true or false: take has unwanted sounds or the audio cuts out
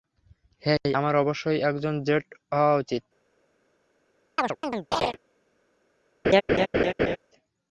true